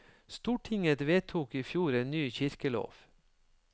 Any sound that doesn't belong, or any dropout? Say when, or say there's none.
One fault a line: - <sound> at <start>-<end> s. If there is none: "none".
none